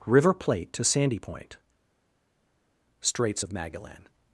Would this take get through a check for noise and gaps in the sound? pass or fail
pass